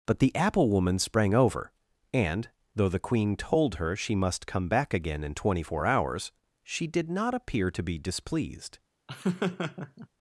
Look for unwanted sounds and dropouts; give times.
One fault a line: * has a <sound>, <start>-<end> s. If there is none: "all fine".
* has a laugh, 9.1-10.1 s